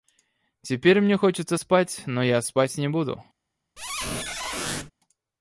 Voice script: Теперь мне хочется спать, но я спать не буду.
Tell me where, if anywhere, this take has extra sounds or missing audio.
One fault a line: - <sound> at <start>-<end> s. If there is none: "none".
- squeak at 3.8-4.9 s